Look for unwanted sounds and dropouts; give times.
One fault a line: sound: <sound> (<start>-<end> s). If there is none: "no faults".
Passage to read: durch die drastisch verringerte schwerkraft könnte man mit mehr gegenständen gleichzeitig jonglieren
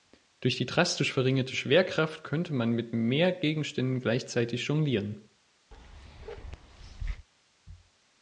sound: bark (5.7-7.3 s)